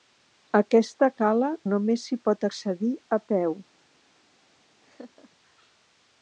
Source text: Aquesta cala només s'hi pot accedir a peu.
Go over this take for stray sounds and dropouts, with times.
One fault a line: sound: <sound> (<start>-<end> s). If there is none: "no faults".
sound: laugh (4.8-5.3 s)